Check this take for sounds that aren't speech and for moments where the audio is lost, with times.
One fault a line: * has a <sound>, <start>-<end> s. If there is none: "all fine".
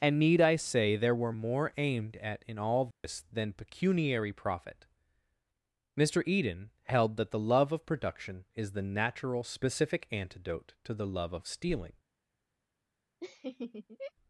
* has a dropout, 2.9-3.0 s
* has a laugh, 13.2-14.1 s